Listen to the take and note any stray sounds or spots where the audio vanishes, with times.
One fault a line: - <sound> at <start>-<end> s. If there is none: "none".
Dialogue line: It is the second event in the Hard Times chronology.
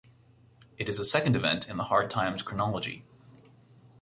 none